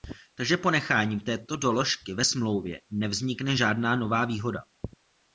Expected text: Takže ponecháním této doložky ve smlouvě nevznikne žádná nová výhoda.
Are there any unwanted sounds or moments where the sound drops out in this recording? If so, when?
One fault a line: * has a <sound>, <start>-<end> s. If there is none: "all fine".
all fine